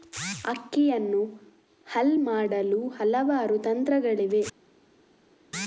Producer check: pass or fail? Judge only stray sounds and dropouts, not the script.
pass